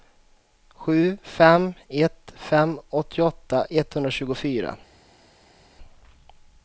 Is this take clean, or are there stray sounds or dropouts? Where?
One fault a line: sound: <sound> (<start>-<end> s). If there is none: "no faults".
no faults